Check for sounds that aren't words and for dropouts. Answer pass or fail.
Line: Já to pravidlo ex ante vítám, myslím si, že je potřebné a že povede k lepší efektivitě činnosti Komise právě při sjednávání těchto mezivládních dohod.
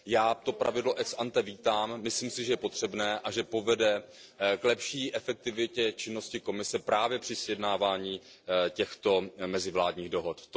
pass